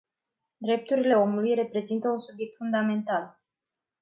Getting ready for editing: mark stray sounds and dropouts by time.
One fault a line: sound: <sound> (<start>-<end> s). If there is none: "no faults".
no faults